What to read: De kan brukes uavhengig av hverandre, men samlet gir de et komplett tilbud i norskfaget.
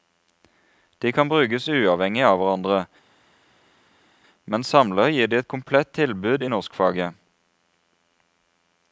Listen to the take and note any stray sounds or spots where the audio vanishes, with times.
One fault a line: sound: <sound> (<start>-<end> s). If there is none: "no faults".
no faults